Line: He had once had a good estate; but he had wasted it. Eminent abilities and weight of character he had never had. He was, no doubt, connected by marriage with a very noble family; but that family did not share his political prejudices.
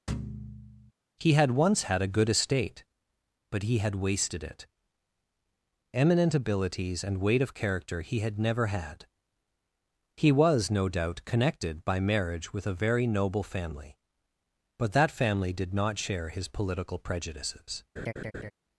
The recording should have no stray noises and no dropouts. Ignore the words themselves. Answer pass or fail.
fail